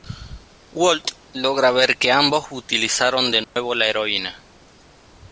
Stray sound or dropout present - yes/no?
yes